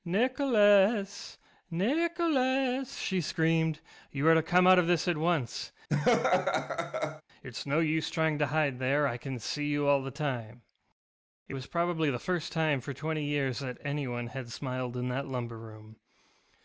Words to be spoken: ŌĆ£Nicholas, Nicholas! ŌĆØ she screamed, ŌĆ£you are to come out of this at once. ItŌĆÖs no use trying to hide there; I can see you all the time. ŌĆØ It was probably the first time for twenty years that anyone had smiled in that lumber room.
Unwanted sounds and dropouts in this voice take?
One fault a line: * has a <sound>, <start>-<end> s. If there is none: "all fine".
* has a laugh, 5.9-7.2 s